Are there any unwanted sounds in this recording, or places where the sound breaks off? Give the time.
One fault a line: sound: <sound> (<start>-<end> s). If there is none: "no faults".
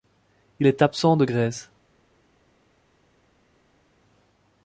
no faults